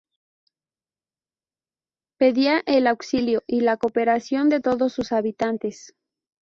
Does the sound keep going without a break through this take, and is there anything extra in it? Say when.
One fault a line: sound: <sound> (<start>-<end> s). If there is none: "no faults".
no faults